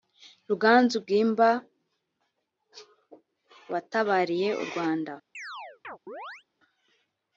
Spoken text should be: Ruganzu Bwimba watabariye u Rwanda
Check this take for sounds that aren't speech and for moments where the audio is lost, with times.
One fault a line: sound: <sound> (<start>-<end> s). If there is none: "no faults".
sound: chirp (5.3-6.4 s)